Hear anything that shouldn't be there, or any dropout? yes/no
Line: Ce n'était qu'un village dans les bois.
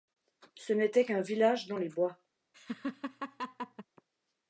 yes